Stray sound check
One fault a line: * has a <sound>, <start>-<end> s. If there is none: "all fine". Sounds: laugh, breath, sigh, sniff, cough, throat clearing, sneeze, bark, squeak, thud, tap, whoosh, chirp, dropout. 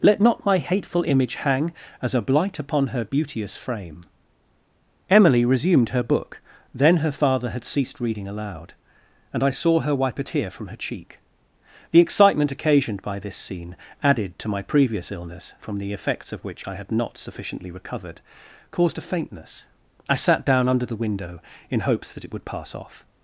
all fine